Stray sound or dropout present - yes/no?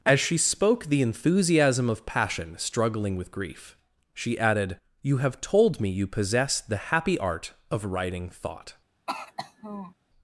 yes